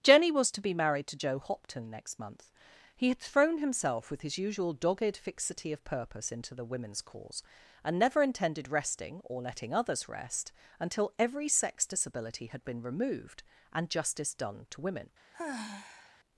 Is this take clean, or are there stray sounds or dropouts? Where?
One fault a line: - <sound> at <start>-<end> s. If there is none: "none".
- sigh at 15.3-16.2 s